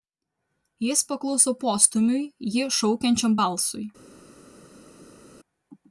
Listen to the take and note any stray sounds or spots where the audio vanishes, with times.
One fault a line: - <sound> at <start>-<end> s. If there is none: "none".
none